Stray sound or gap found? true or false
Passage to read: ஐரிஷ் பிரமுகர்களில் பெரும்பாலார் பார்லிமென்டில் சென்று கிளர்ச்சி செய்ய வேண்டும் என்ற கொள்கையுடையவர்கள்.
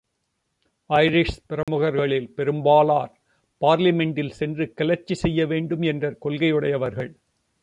true